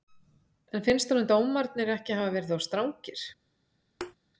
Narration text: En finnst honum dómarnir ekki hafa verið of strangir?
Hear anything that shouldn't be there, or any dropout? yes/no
yes